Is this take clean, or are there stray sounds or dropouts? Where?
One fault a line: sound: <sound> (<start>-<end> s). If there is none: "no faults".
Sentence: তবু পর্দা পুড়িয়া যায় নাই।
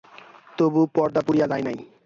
no faults